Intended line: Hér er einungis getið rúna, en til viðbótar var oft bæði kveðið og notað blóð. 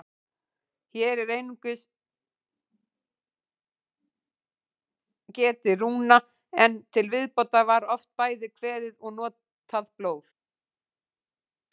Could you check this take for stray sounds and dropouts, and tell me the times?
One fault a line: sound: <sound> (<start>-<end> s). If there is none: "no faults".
no faults